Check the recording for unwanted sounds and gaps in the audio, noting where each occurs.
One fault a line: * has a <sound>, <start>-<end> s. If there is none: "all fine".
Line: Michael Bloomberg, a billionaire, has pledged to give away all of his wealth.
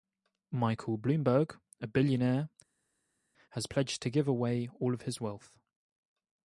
all fine